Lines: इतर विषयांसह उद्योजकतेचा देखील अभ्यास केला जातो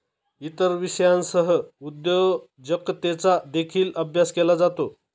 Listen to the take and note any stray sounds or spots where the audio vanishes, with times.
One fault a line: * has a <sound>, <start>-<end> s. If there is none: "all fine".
all fine